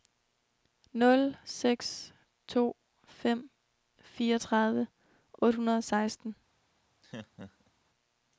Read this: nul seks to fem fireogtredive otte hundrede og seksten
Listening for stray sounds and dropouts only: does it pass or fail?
fail